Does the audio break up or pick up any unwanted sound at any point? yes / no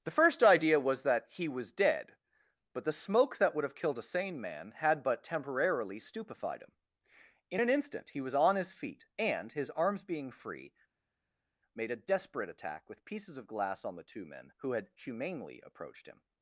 no